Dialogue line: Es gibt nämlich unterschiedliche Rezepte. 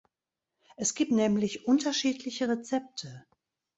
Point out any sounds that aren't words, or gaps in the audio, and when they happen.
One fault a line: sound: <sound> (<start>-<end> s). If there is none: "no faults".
no faults